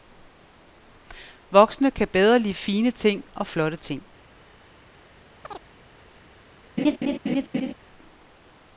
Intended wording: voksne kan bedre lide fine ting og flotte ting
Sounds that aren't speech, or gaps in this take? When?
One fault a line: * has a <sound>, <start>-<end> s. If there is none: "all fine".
* has a chirp, 5.4-5.6 s
* has a laugh, 6.8-7.7 s